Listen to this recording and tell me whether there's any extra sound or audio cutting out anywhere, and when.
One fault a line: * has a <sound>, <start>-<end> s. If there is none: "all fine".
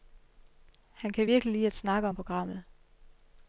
all fine